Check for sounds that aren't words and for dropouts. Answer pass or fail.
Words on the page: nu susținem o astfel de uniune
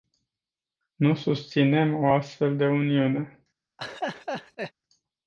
fail